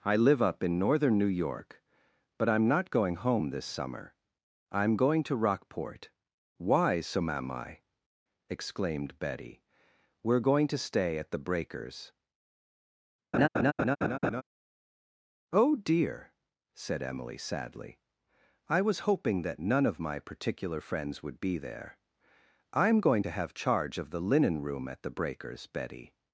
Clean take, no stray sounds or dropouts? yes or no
no